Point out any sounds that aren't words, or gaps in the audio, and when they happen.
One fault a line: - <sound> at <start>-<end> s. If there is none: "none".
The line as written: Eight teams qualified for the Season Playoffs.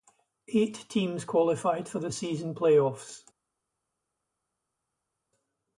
none